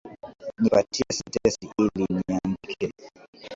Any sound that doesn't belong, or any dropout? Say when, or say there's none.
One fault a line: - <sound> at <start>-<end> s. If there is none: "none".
none